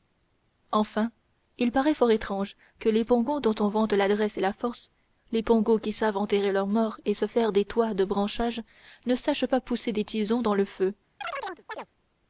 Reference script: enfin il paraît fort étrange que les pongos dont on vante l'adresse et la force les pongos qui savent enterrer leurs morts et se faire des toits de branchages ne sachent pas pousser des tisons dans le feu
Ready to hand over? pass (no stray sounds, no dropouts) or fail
fail